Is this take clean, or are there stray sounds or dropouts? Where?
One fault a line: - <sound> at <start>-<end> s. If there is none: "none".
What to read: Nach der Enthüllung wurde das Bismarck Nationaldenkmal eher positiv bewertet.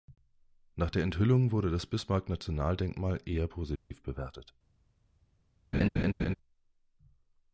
- dropout at 3.8-3.9 s
- laugh at 5.7-6.3 s